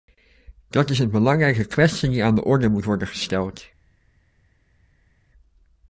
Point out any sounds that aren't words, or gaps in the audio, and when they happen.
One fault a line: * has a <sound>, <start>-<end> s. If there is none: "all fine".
all fine